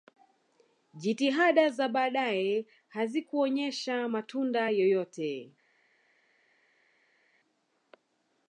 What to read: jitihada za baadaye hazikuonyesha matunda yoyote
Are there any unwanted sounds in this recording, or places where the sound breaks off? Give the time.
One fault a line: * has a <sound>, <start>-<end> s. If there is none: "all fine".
all fine